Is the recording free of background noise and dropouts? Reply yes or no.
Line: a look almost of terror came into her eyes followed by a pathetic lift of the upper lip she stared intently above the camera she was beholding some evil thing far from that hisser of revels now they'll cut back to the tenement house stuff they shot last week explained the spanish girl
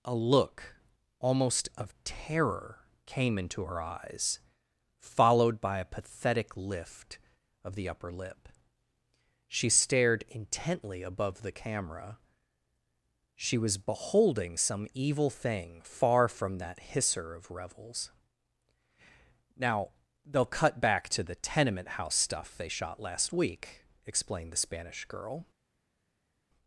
yes